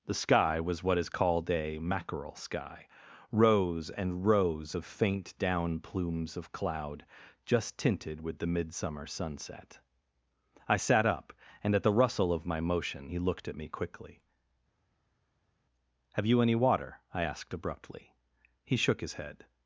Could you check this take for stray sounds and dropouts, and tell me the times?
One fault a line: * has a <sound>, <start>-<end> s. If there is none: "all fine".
all fine